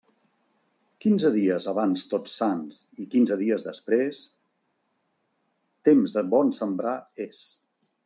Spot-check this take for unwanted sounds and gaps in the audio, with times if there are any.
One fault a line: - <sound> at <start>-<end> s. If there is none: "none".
none